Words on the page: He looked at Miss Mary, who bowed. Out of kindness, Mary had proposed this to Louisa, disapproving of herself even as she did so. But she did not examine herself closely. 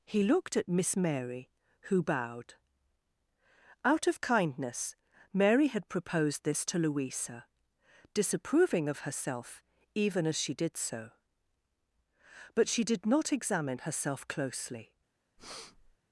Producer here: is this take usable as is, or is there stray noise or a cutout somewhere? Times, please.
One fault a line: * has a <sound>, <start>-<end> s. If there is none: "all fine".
* has a breath, 15.4-16.0 s